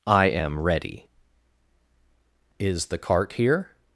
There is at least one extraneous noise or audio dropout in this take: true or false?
false